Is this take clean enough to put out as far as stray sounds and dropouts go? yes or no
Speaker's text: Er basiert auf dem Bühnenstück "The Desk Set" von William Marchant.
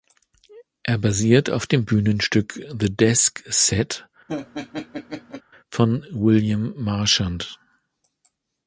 no